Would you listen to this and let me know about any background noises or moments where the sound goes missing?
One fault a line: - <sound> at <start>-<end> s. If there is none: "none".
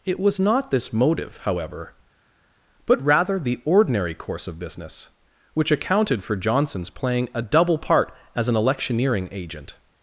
none